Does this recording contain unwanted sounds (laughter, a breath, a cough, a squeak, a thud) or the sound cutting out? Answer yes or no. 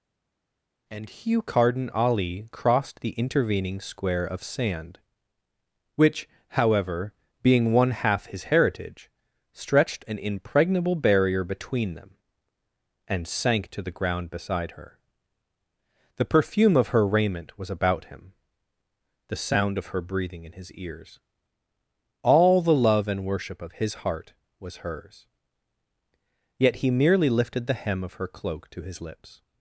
no